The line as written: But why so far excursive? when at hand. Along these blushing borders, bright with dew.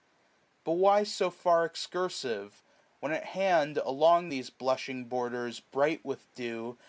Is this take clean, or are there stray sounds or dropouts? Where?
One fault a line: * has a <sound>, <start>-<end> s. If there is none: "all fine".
all fine